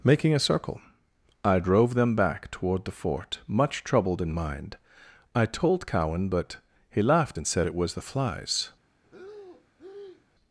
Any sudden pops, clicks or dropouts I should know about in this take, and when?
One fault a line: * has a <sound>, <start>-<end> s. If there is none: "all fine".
* has a breath, 9.0-10.3 s